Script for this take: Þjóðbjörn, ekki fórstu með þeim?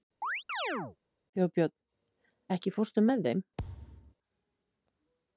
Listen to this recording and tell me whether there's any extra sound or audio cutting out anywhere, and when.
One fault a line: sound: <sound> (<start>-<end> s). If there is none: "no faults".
sound: chirp (0.2-1.0 s)
sound: thud (3.6-4.1 s)